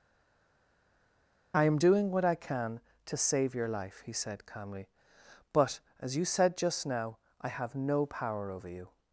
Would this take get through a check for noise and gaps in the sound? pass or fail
pass